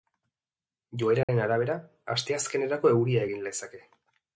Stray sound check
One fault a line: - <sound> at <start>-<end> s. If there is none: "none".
- dropout at 1.2-1.3 s